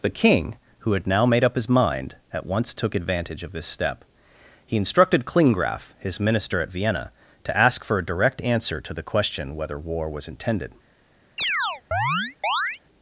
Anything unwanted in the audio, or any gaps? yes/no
yes